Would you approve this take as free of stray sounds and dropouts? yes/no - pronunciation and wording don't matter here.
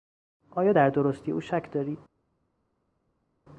yes